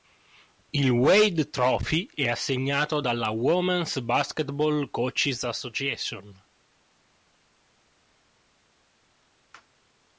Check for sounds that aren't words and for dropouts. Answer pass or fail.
pass